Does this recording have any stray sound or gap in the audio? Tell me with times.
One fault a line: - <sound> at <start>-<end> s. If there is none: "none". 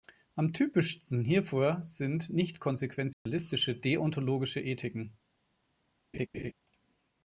- dropout at 3.1-3.3 s
- laugh at 6.1-6.5 s